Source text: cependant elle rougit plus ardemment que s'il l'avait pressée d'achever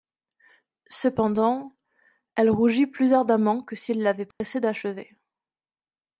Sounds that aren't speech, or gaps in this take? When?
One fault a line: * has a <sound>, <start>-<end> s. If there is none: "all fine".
* has a dropout, 4.3-4.4 s